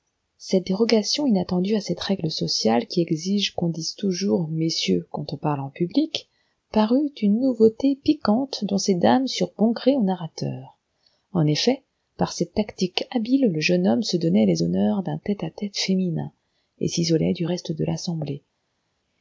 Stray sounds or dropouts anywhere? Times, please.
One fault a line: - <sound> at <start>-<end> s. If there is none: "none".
none